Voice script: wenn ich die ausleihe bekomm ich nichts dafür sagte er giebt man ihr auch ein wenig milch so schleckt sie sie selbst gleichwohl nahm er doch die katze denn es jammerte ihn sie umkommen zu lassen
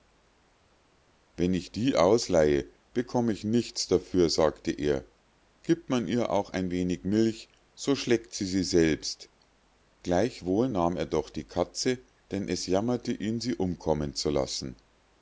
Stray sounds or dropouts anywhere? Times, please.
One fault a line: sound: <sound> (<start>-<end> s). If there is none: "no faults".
no faults